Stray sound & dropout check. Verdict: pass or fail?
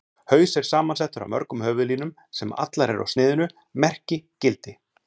pass